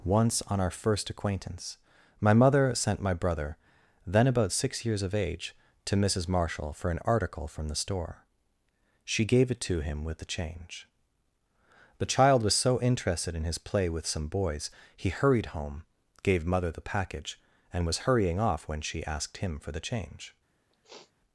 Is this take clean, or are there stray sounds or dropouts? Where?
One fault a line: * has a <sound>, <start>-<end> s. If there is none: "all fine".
* has a sniff, 20.7-21.1 s